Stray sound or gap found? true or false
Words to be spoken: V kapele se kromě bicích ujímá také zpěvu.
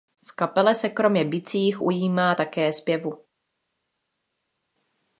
false